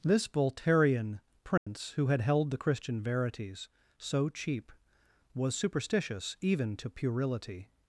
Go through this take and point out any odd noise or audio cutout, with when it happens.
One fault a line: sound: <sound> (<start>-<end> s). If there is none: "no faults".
sound: dropout (1.6-1.7 s)